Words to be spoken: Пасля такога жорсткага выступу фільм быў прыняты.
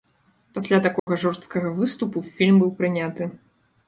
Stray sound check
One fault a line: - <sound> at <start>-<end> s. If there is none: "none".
- dropout at 1.0-1.1 s